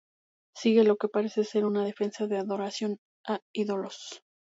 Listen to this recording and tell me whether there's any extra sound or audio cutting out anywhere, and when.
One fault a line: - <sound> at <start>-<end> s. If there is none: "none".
none